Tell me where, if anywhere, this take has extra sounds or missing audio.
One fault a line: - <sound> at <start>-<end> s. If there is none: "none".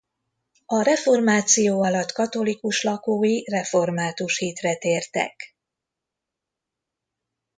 none